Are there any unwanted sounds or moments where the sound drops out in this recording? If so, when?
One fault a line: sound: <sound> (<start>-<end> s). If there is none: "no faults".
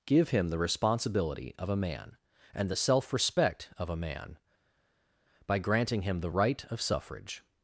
no faults